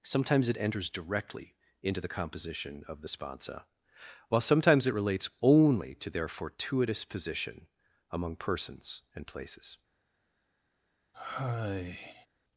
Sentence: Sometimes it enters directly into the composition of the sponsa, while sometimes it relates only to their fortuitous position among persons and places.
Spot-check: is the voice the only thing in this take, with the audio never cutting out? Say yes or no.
no